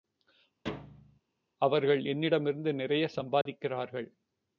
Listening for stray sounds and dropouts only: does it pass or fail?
fail